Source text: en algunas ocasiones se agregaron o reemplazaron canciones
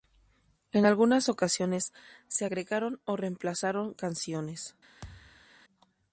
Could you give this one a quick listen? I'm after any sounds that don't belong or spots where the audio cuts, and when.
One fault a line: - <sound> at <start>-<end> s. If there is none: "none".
- thud at 5.0-5.5 s